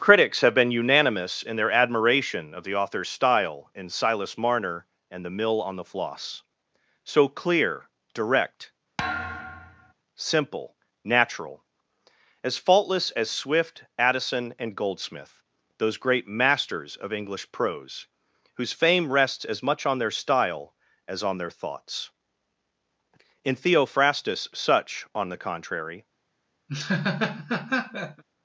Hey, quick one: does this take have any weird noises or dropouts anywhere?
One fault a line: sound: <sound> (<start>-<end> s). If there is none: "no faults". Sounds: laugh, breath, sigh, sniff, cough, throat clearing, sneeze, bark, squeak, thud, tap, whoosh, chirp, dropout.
sound: thud (9.0-9.9 s)
sound: laugh (26.7-28.2 s)